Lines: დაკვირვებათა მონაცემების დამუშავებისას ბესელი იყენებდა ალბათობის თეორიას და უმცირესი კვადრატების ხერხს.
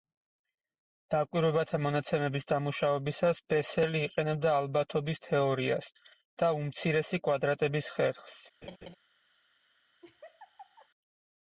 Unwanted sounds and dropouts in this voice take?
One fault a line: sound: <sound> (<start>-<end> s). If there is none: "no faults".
sound: laugh (8.6-9.0 s)
sound: laugh (10.0-10.9 s)